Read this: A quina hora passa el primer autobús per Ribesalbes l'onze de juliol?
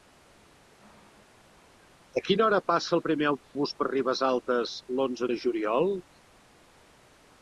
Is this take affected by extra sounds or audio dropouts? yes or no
yes